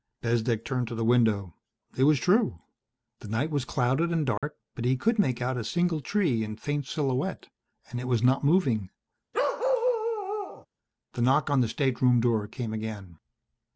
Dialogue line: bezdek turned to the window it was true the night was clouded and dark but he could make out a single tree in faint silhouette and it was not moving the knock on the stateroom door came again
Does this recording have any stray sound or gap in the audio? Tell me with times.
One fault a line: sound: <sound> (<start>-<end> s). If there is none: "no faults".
sound: dropout (4.4-4.4 s)
sound: bark (9.3-10.7 s)